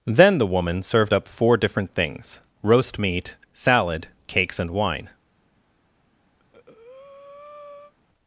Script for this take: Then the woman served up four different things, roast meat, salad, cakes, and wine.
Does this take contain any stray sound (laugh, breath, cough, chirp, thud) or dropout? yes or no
yes